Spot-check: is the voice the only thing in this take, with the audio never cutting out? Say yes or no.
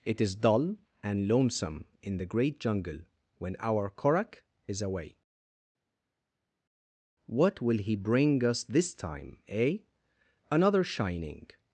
yes